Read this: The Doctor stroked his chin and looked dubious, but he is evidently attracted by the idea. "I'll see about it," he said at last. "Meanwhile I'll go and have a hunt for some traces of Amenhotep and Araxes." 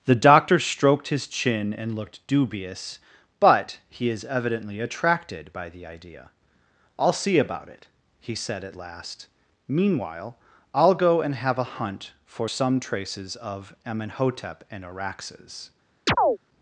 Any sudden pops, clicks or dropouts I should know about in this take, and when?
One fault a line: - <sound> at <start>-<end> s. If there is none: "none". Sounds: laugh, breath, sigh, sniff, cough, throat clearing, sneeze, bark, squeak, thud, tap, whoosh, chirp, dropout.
- chirp at 16.1-16.4 s